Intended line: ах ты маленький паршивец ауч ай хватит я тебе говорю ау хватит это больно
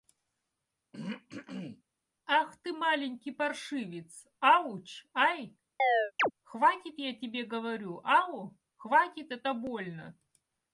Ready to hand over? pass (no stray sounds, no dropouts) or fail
fail